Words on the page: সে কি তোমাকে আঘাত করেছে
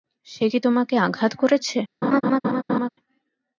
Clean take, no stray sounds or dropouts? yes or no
no